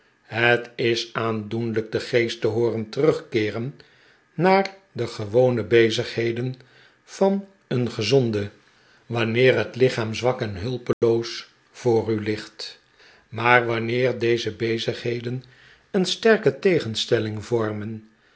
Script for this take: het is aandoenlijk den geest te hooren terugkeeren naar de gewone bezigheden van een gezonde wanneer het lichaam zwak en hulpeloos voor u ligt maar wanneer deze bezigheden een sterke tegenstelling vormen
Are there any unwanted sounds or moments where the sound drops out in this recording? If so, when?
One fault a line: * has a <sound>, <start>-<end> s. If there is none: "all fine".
* has a dropout, 10.9-11.0 s